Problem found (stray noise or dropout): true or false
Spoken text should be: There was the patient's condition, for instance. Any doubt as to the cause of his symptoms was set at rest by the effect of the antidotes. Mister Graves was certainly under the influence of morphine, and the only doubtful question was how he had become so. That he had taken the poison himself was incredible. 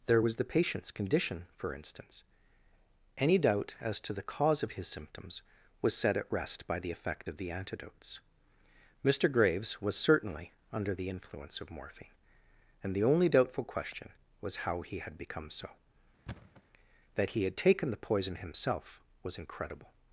true